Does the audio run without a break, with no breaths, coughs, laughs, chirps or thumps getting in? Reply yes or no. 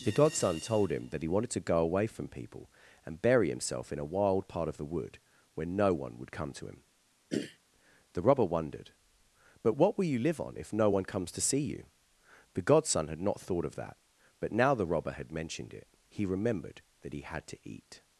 no